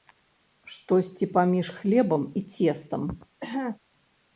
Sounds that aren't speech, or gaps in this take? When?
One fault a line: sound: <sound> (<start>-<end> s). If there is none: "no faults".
sound: cough (3.4-3.8 s)